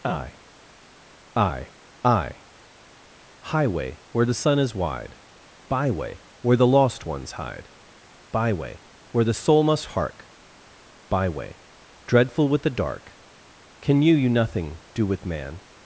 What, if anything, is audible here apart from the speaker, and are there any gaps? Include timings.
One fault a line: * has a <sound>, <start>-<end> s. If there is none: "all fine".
all fine